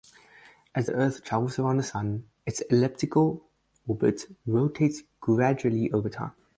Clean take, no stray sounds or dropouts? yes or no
yes